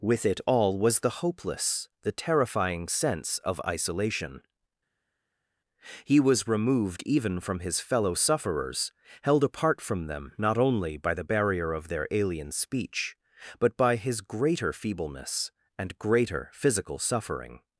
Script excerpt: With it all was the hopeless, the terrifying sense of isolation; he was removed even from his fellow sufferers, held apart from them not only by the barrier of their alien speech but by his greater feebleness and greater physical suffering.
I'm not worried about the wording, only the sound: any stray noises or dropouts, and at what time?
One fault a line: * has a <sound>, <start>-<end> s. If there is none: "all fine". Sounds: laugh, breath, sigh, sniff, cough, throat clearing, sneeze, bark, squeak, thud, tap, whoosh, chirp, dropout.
all fine